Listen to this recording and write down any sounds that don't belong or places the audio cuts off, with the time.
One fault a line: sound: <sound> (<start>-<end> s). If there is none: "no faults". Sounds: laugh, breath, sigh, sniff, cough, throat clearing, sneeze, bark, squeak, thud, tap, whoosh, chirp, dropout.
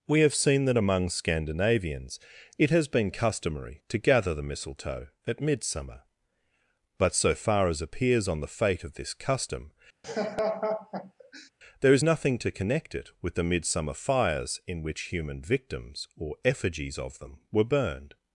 sound: laugh (10.0-11.5 s)